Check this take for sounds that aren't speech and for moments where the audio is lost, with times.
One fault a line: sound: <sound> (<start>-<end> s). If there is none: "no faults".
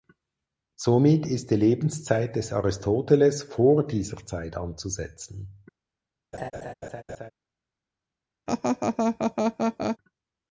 sound: laugh (6.3-7.3 s)
sound: laugh (8.5-10.0 s)